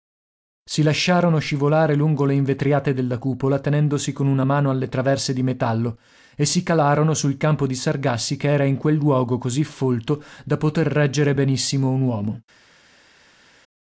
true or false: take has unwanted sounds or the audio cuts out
false